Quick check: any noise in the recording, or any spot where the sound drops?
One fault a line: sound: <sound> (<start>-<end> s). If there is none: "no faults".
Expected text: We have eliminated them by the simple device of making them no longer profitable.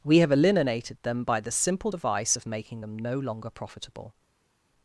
no faults